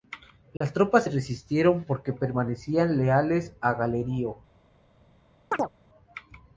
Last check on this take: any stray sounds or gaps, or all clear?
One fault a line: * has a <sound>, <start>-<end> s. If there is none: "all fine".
* has a dropout, 0.6-0.6 s
* has a chirp, 5.5-5.7 s